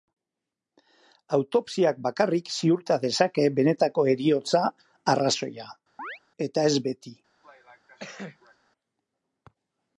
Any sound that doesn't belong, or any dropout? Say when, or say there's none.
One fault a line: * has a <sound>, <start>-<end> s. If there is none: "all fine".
* has a chirp, 6.0-6.2 s
* has a cough, 7.4-8.6 s